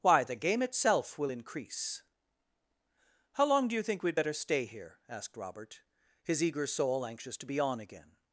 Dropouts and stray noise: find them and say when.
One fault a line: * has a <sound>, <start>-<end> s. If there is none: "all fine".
all fine